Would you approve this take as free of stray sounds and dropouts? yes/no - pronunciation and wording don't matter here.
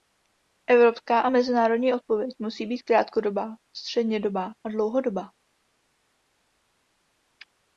yes